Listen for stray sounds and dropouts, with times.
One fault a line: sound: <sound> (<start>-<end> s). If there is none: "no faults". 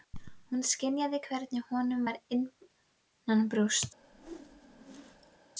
sound: whoosh (4.0-5.4 s)